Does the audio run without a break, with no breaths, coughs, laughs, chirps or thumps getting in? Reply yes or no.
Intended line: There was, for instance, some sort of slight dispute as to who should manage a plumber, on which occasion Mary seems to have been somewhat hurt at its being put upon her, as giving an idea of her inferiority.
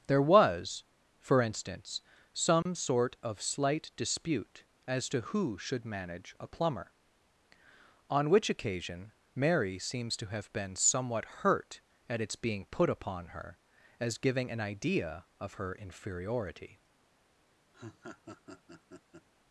no